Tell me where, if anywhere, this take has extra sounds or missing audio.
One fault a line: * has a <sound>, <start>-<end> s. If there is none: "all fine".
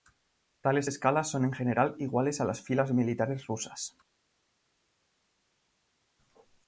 all fine